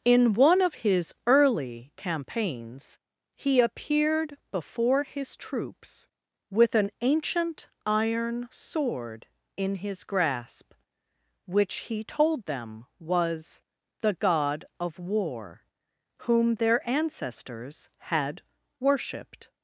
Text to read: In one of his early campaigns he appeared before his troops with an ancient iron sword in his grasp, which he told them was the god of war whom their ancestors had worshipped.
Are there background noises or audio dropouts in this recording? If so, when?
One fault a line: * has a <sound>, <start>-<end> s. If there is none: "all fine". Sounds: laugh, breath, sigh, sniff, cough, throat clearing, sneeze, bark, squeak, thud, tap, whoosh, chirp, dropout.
all fine